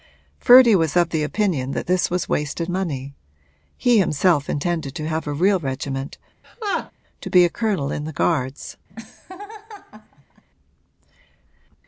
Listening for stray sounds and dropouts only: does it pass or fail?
fail